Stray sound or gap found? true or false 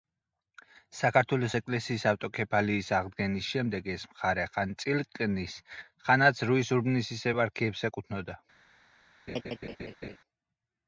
true